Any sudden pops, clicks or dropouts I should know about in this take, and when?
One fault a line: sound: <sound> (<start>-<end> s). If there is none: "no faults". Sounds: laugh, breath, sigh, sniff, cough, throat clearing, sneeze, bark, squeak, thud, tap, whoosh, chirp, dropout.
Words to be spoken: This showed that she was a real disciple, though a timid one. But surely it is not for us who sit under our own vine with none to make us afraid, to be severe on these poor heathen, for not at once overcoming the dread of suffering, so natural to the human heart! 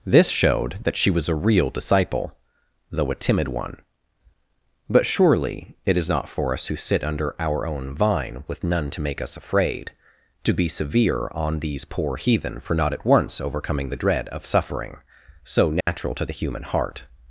sound: dropout (15.8-15.9 s)